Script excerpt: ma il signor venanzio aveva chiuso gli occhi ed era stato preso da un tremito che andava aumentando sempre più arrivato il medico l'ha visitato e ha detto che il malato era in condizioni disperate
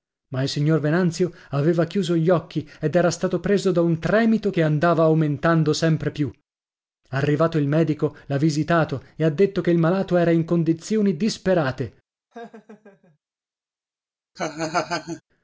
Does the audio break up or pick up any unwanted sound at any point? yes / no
yes